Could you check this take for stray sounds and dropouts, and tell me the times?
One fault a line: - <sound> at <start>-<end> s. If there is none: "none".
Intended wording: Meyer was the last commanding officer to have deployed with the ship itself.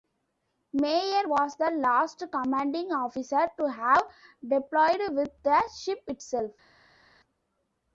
none